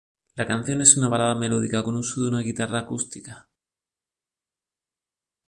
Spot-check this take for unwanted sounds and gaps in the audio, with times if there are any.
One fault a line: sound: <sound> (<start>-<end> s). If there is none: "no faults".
no faults